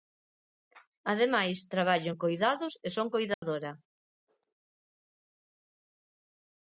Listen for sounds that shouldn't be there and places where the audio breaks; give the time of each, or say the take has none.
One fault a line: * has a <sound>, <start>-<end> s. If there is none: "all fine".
* has a dropout, 3.3-3.4 s